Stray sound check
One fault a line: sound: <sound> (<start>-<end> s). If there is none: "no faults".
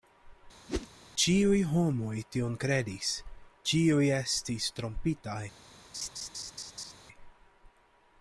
sound: whoosh (0.7-0.9 s)
sound: laugh (5.9-6.9 s)